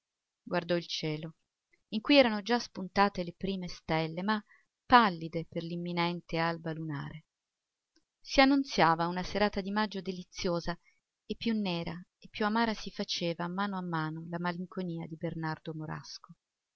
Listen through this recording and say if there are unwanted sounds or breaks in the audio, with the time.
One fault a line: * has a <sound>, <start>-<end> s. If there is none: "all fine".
all fine